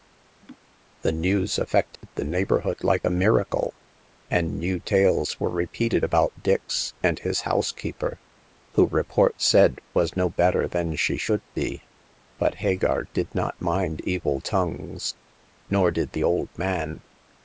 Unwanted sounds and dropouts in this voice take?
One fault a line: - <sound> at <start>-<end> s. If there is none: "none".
- laugh at 0.4-0.6 s
- dropout at 2.0-2.0 s